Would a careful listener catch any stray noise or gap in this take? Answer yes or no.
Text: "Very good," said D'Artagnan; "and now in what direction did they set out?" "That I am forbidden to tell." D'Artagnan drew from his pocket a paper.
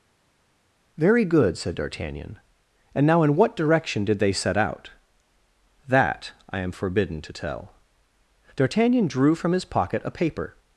no